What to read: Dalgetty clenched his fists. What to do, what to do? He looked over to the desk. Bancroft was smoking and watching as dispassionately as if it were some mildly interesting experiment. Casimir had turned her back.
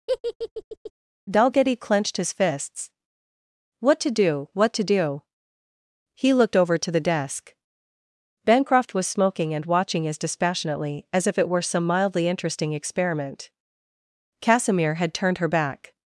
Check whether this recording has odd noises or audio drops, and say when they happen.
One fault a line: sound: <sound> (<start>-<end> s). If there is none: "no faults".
sound: laugh (0.1-0.9 s)